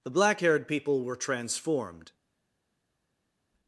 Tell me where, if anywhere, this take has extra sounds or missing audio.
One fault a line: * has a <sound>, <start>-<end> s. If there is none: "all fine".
all fine